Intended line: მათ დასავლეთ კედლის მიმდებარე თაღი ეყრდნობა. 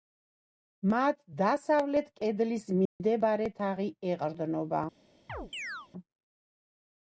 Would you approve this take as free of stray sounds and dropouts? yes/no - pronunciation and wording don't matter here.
no